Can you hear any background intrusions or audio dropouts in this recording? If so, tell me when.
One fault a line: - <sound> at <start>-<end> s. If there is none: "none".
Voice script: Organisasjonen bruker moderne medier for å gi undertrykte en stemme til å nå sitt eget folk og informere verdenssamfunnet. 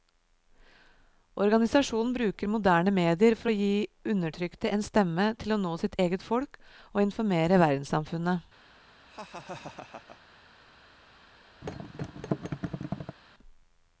- laugh at 9.1-10.2 s
- thud at 11.6-13.2 s